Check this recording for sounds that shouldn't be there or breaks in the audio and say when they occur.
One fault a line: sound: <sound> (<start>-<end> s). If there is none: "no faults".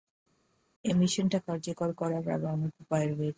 no faults